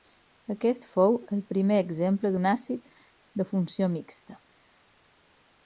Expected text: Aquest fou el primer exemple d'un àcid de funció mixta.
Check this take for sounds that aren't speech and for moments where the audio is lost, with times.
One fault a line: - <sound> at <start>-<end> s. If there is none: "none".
none